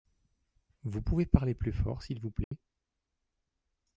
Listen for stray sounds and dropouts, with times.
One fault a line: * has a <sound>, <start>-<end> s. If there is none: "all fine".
* has a dropout, 2.4-2.5 s